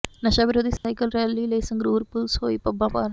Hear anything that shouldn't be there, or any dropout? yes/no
yes